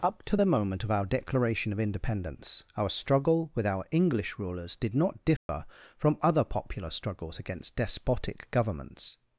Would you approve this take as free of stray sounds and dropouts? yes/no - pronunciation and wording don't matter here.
no